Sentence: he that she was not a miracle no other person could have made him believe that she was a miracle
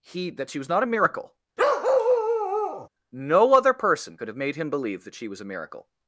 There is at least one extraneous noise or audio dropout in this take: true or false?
true